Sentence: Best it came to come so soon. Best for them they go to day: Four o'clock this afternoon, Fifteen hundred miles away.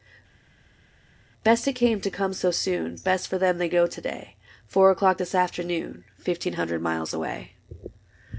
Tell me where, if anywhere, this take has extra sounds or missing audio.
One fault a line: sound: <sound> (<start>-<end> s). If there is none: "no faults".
no faults